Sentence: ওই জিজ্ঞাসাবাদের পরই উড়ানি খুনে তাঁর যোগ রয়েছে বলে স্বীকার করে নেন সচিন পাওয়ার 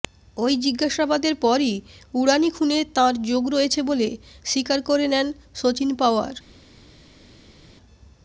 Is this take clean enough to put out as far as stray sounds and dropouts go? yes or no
yes